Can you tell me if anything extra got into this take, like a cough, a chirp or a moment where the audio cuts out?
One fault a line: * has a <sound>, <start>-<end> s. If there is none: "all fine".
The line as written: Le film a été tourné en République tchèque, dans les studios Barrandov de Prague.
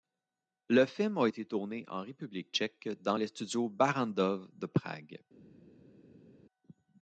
all fine